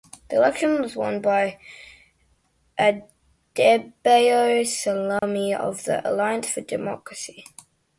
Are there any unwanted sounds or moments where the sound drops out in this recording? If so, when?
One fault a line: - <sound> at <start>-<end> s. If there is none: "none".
- dropout at 5.2-5.2 s